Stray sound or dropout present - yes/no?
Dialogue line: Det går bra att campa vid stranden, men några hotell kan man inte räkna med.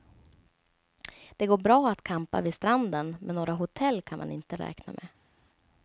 no